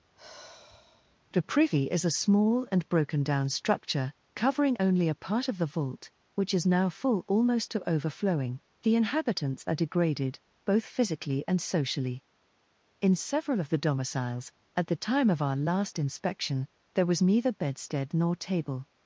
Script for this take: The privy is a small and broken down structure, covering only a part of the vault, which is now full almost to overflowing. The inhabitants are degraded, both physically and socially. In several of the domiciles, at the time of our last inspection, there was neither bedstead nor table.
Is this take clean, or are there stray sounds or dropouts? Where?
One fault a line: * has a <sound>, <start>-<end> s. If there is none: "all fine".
* has a sigh, 0.2-1.2 s